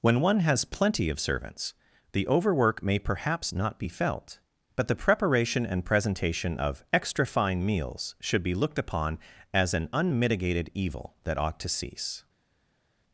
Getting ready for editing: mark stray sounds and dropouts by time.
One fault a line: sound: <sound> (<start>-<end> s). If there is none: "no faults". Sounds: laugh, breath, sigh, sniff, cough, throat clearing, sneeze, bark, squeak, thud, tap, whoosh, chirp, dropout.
no faults